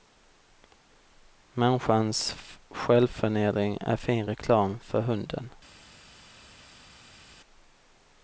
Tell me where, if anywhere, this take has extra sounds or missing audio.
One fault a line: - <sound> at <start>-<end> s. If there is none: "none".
none